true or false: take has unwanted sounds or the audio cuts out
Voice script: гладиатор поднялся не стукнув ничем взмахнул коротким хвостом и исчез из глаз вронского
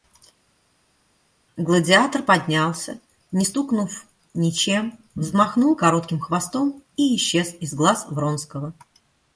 false